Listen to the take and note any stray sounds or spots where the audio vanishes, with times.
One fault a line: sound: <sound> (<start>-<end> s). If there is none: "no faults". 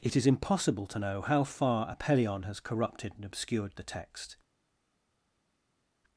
no faults